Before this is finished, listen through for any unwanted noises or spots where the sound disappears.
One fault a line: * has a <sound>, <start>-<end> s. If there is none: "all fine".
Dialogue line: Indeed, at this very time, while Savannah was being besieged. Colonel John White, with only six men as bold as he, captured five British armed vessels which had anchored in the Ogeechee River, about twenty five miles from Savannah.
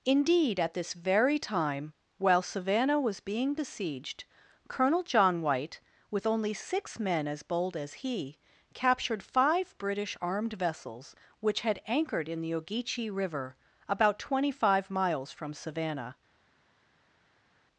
all fine